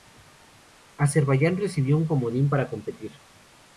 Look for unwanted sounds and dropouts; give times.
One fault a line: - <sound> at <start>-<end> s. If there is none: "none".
none